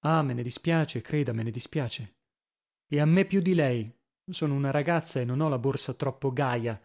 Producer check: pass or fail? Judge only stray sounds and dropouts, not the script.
pass